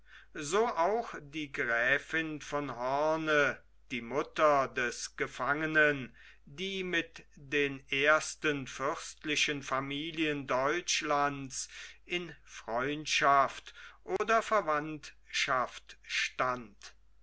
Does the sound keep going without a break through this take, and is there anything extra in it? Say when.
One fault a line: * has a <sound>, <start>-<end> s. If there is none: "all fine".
* has a dropout, 14.2-14.2 s